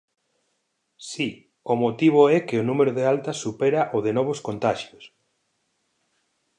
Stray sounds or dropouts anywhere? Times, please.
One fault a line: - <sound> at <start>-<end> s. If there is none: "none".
none